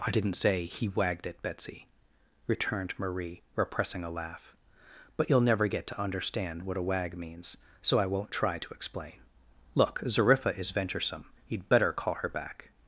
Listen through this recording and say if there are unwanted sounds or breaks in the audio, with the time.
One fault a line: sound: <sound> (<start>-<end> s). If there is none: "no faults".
no faults